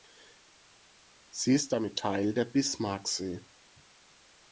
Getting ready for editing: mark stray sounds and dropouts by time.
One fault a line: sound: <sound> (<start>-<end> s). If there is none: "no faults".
no faults